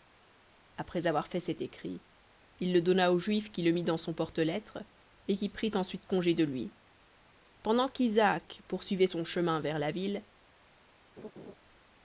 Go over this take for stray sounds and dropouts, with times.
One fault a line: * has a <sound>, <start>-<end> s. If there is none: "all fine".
* has a laugh, 11.2-11.5 s